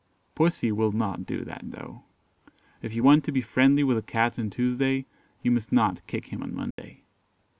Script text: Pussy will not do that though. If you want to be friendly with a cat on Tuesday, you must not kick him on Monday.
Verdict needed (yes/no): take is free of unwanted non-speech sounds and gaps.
no